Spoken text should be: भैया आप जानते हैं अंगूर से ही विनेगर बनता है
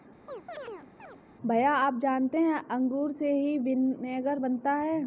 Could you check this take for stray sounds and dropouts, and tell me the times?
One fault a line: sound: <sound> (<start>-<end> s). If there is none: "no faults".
sound: chirp (0.3-1.2 s)